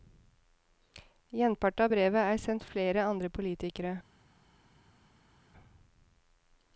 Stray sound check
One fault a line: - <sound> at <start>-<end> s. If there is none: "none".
none